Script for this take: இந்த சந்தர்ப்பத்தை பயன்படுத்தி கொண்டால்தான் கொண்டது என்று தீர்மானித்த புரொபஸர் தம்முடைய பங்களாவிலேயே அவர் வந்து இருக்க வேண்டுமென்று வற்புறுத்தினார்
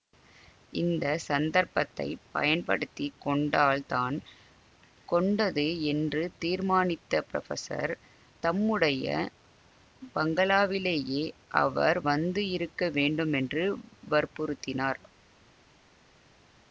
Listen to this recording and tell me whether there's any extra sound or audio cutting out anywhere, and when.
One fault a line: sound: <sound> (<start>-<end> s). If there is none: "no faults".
no faults